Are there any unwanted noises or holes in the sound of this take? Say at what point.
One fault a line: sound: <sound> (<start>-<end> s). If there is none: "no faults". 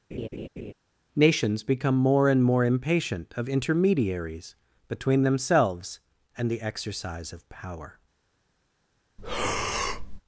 sound: laugh (0.1-0.7 s)
sound: breath (9.2-10.2 s)